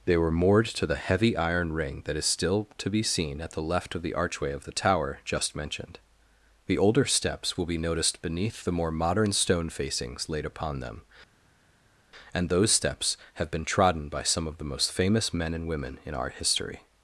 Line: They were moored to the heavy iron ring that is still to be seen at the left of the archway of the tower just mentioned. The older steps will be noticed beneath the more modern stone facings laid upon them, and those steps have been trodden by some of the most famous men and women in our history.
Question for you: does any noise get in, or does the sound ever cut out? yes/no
no